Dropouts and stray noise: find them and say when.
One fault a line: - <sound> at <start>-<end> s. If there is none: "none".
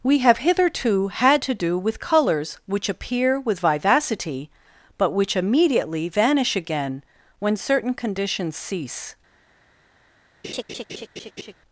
- laugh at 10.4-11.5 s